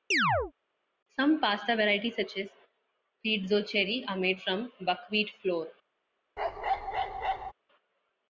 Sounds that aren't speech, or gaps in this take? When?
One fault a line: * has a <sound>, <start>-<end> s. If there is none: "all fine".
* has a chirp, 0.1-0.5 s
* has a bark, 6.4-7.5 s